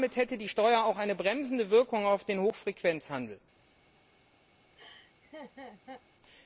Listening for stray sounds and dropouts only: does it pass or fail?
fail